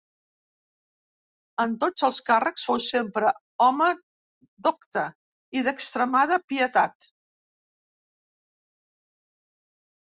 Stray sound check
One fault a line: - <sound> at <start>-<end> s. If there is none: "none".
none